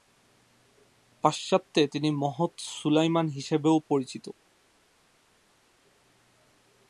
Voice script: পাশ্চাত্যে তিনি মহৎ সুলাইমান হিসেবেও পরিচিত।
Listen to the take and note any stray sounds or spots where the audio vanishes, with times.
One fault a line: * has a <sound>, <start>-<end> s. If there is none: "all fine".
all fine